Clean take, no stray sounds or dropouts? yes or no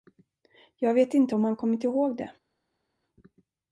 yes